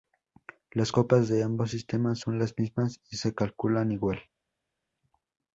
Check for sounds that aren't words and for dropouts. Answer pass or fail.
pass